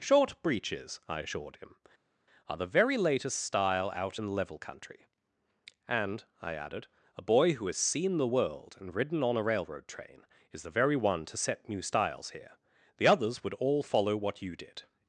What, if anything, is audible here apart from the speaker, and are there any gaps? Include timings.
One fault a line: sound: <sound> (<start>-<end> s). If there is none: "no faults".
no faults